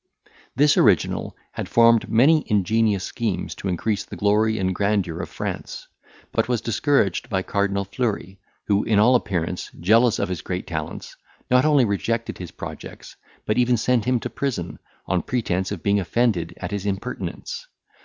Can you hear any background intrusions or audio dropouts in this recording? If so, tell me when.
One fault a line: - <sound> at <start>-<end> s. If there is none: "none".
none